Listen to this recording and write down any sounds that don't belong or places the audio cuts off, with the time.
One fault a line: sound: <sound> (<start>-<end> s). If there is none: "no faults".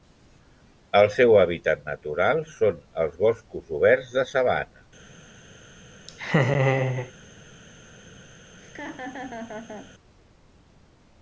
sound: laugh (6.1-7.1 s)
sound: laugh (8.6-9.9 s)